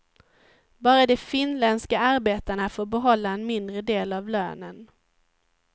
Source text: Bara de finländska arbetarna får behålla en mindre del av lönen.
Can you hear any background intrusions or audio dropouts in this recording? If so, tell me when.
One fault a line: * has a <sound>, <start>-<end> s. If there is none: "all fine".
all fine